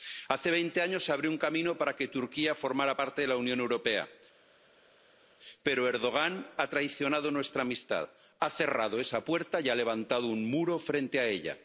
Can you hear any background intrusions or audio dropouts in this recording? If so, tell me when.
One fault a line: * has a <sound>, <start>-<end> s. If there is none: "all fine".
all fine